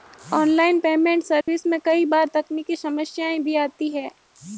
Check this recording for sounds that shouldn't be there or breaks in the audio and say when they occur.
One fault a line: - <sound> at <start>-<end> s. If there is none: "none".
- dropout at 1.4-1.5 s